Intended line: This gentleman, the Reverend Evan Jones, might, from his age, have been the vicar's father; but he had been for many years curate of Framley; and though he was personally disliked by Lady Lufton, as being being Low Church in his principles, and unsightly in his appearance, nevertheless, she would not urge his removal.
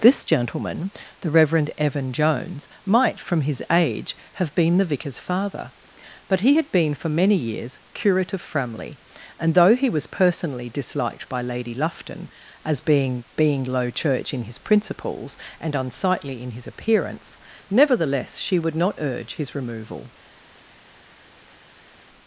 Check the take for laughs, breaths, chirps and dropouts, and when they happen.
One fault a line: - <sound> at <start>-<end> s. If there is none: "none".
none